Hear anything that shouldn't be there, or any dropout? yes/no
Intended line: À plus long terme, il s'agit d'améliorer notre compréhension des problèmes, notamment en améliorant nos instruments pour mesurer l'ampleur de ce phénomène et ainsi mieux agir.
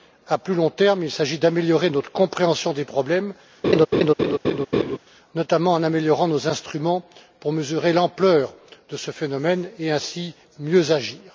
yes